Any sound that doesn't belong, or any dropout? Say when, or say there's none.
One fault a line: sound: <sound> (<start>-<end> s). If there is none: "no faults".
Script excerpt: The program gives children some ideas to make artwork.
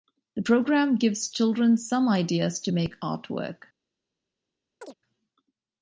sound: chirp (4.8-4.9 s)